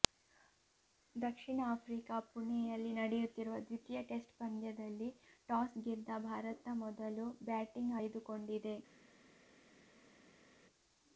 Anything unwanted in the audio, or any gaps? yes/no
no